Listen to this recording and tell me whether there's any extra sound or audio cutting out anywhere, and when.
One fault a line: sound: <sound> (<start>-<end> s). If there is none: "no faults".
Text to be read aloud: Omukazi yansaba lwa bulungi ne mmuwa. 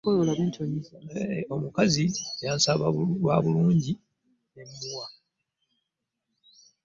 no faults